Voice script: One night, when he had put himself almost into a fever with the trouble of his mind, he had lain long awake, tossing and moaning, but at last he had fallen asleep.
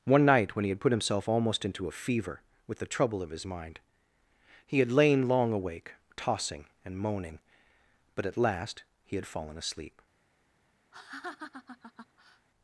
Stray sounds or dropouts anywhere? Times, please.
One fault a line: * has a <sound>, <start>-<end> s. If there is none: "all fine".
* has a laugh, 10.9-12.5 s